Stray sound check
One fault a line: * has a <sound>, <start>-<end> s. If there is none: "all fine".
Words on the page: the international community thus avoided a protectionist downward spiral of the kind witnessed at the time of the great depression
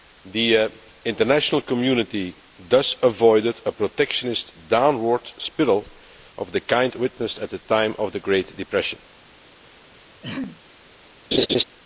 * has a throat clearing, 10.2-10.6 s
* has a laugh, 11.3-11.6 s